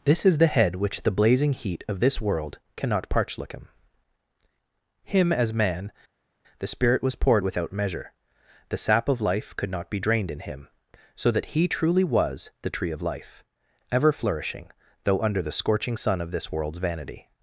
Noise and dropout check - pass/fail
pass